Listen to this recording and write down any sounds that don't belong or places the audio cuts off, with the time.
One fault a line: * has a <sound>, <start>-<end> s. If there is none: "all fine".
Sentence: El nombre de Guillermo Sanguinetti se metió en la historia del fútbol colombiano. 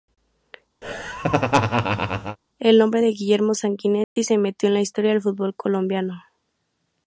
* has a laugh, 0.8-2.4 s
* has a dropout, 4.0-4.2 s